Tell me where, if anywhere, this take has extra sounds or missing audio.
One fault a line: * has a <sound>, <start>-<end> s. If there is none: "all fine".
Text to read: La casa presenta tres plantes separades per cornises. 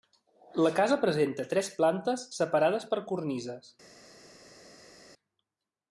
all fine